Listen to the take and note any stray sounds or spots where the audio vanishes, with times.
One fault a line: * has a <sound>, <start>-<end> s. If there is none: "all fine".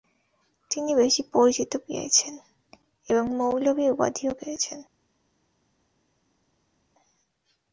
all fine